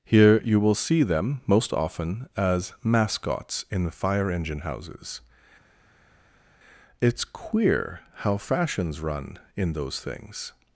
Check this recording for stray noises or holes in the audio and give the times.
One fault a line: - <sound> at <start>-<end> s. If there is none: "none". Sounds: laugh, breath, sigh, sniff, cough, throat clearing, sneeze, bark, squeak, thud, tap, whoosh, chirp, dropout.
none